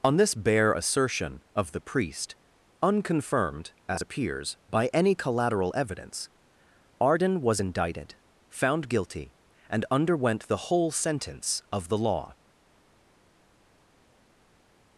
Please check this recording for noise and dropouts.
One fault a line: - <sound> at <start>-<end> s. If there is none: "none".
none